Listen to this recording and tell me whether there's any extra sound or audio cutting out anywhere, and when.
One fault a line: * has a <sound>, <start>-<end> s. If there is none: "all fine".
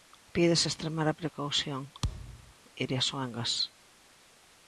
* has a thud, 2.0-2.5 s